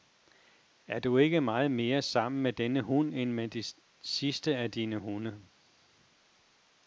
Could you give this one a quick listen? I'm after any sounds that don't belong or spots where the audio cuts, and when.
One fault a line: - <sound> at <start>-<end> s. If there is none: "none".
none